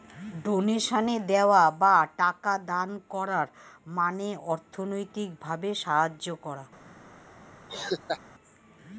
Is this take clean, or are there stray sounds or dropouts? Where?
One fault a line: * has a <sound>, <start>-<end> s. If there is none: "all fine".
* has a laugh, 7.7-8.2 s